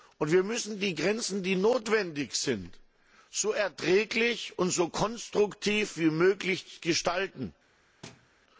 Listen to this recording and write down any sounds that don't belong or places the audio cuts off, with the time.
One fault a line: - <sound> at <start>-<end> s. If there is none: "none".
- thud at 8.0-8.3 s